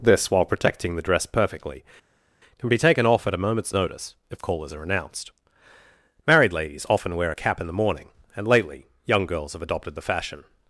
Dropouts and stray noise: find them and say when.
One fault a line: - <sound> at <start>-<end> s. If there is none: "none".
none